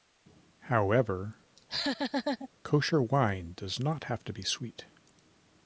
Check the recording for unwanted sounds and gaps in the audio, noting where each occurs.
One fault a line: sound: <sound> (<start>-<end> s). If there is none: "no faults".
sound: laugh (1.6-2.5 s)